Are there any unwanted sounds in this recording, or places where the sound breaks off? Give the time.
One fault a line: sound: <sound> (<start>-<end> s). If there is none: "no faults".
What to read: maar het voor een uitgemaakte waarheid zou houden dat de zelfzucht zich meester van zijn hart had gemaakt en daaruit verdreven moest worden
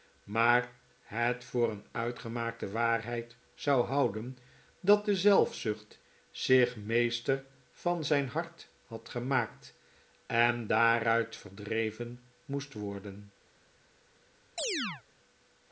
sound: chirp (14.6-15.0 s)